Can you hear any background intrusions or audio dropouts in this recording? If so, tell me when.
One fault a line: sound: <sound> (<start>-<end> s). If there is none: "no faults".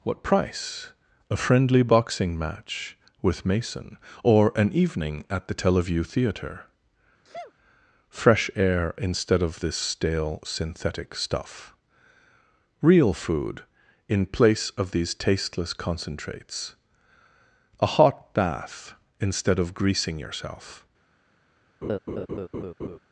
sound: sneeze (7.2-7.5 s)
sound: laugh (21.8-23.0 s)